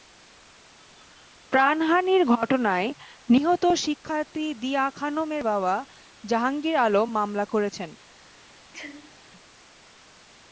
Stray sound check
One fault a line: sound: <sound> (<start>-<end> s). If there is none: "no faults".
sound: sneeze (8.7-9.2 s)